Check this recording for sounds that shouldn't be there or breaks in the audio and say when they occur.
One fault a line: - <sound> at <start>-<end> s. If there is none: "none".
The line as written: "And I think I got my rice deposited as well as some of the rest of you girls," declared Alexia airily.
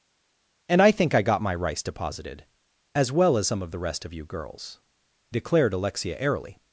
none